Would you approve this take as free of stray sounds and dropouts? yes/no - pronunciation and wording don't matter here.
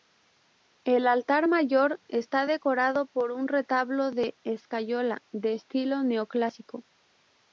yes